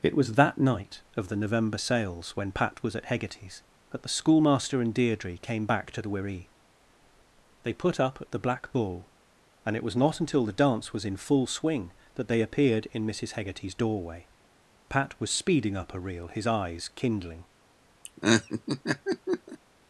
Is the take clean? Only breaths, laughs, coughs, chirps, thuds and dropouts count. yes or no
no